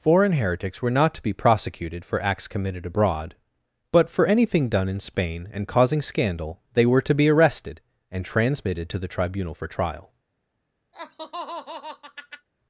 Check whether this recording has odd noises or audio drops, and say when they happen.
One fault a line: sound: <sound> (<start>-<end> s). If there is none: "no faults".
sound: laugh (10.9-12.5 s)